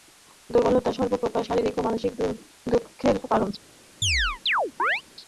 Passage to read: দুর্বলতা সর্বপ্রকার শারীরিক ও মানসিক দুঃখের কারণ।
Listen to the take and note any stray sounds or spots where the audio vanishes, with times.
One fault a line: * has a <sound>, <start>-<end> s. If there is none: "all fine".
* has a chirp, 4.0-5.0 s